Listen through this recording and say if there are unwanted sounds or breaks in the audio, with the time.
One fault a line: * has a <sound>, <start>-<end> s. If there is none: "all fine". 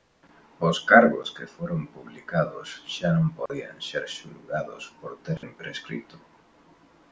* has a dropout, 3.5-3.5 s
* has a dropout, 5.4-5.4 s